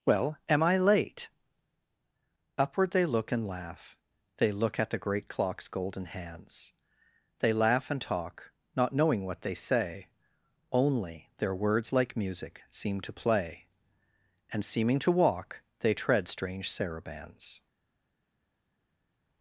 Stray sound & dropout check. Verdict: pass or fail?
pass